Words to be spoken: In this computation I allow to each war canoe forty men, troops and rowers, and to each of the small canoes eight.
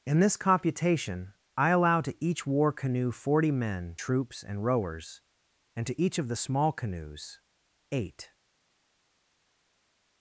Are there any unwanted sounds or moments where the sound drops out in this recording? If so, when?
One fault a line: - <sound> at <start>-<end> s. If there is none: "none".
none